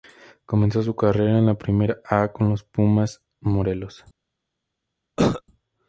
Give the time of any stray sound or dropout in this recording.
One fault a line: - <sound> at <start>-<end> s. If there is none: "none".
- cough at 5.2-5.4 s